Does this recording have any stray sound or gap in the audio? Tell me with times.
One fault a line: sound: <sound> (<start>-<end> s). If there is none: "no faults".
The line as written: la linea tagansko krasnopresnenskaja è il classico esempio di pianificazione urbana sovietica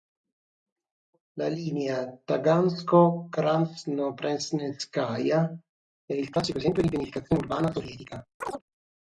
sound: chirp (8.4-8.6 s)